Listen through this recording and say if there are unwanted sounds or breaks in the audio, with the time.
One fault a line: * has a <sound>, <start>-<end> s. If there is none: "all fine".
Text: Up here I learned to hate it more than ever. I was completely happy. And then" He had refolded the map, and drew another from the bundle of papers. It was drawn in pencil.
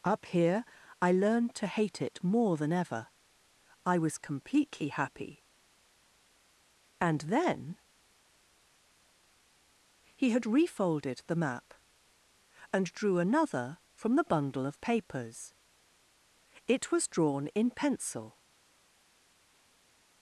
all fine